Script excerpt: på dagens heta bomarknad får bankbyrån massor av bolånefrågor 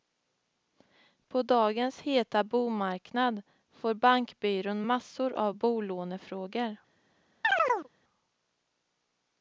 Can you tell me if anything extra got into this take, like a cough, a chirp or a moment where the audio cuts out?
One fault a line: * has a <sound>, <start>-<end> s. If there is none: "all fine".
* has a chirp, 7.4-7.9 s